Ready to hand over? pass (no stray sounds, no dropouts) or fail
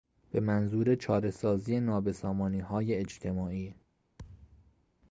fail